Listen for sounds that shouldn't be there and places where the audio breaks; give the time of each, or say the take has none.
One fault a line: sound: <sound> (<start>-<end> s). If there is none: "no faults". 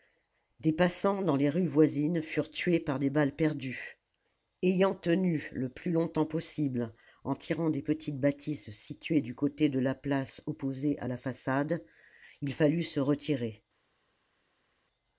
no faults